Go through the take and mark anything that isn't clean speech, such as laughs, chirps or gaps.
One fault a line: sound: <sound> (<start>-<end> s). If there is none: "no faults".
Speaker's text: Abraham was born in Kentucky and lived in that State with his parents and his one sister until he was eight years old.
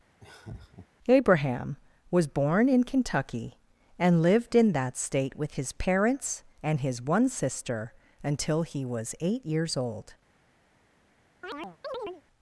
sound: laugh (0.2-0.9 s)
sound: chirp (11.4-12.2 s)